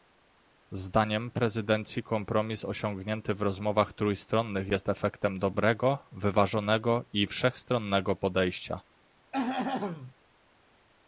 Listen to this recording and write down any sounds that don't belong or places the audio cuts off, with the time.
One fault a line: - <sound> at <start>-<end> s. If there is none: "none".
- throat clearing at 9.3-10.1 s